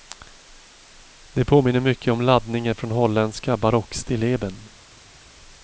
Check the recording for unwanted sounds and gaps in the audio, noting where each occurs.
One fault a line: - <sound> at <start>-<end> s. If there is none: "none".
none